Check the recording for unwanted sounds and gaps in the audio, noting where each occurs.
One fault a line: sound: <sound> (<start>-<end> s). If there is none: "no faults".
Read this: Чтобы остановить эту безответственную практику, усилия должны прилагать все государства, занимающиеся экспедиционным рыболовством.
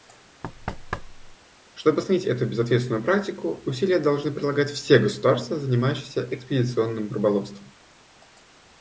sound: thud (0.4-1.4 s)